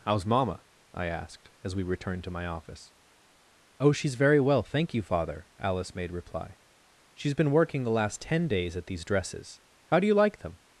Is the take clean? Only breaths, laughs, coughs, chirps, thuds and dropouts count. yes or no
yes